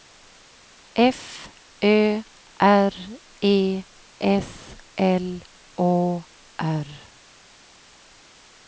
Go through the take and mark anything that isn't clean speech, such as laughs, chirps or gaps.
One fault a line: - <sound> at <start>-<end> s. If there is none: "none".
none